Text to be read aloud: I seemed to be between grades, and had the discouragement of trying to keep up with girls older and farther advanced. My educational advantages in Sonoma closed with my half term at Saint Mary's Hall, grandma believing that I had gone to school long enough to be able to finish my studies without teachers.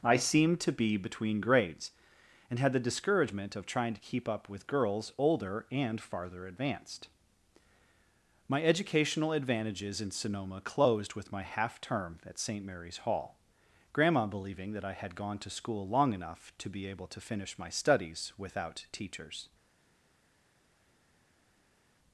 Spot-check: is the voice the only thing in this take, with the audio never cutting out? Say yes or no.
yes